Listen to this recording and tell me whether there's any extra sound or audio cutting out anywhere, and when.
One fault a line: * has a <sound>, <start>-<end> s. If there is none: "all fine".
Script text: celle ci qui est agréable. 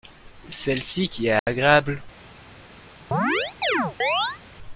* has a dropout, 1.4-1.5 s
* has a chirp, 3.1-4.4 s